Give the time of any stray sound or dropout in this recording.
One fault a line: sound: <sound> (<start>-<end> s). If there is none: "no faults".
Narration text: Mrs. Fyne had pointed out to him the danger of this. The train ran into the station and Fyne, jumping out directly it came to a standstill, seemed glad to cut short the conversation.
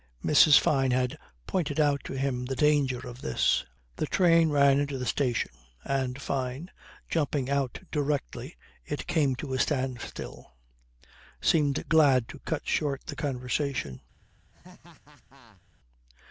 sound: laugh (14.5-15.6 s)